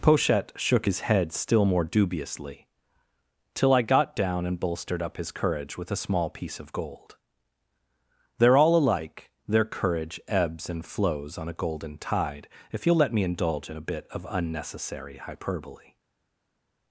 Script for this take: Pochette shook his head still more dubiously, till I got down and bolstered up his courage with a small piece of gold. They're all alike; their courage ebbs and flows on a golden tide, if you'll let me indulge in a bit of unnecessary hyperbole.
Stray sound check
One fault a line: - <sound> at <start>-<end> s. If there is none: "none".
none